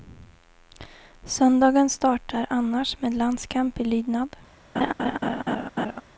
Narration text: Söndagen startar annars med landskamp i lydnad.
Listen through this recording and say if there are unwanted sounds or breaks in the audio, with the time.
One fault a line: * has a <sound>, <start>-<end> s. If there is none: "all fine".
* has a laugh, 4.8-6.0 s